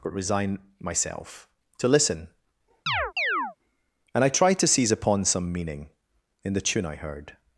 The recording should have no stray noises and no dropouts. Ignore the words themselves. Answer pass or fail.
fail